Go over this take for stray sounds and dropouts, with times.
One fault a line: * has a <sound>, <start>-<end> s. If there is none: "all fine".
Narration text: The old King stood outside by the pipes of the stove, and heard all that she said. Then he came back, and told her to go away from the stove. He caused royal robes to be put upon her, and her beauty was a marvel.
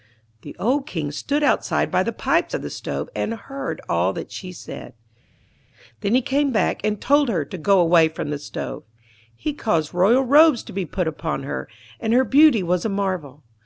all fine